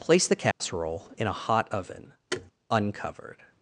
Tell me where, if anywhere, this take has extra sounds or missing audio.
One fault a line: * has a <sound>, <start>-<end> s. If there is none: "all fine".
* has a dropout, 0.5-0.6 s
* has a thud, 2.3-2.5 s